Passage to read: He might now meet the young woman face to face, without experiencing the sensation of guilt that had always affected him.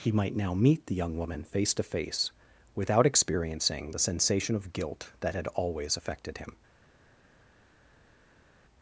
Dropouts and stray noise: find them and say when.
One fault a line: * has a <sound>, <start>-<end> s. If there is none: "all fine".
all fine